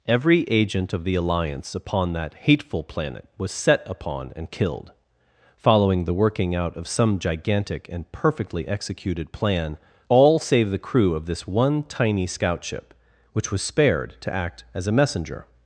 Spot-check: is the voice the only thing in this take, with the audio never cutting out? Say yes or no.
yes